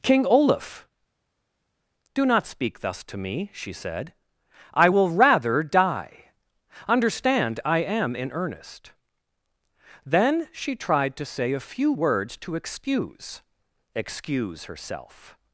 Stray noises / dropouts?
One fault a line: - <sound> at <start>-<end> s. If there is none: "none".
none